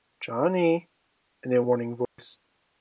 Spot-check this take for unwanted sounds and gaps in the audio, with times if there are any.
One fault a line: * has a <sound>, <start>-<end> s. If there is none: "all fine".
* has a dropout, 2.1-2.2 s